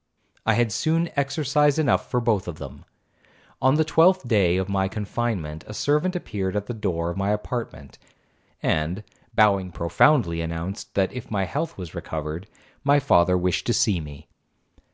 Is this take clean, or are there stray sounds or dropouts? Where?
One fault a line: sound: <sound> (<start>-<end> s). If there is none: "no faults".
no faults